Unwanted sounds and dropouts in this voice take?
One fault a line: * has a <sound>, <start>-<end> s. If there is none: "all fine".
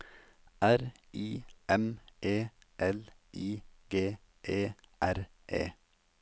all fine